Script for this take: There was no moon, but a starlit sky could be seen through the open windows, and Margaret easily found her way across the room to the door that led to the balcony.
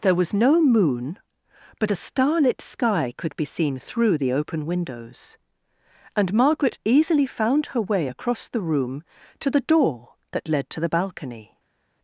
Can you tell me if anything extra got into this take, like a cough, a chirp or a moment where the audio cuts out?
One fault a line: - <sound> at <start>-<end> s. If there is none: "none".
none